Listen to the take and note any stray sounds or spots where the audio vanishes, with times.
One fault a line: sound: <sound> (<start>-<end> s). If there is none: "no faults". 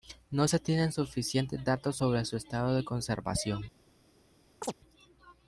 sound: chirp (4.6-4.7 s)